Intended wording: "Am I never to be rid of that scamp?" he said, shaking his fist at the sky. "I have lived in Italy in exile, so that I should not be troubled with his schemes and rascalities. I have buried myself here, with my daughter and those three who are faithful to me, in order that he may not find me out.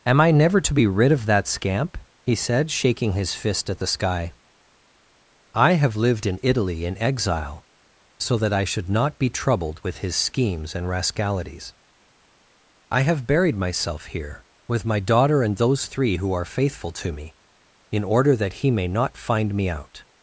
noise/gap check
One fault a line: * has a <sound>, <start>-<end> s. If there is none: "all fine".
all fine